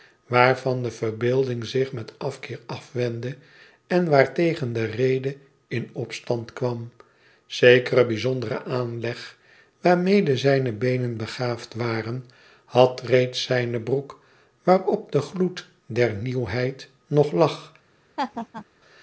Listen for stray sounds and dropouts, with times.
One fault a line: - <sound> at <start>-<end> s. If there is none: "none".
- laugh at 18.2-18.6 s